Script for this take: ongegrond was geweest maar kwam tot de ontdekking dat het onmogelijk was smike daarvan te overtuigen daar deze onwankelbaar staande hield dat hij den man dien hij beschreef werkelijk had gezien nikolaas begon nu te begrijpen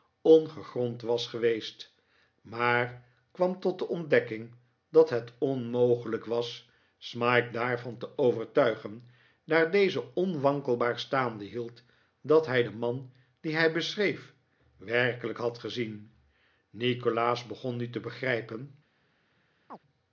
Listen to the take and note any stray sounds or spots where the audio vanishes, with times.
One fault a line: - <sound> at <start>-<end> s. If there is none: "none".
- chirp at 19.7-19.8 s